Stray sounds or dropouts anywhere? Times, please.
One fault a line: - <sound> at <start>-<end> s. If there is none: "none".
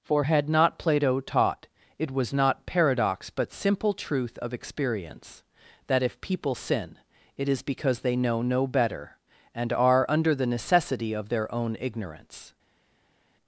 none